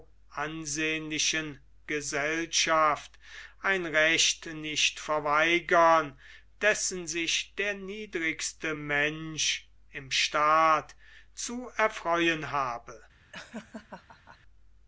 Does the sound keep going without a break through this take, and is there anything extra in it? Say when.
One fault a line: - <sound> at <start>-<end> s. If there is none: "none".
- laugh at 13.3-14.4 s